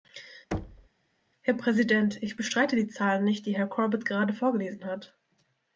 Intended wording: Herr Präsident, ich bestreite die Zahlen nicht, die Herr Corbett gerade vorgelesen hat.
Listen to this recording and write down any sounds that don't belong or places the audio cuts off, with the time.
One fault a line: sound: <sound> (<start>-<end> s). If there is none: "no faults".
sound: thud (0.5-0.9 s)